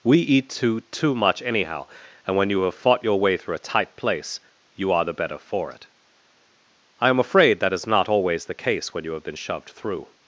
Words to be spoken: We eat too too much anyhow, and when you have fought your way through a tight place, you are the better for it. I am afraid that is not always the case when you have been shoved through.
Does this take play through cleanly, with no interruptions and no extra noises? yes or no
yes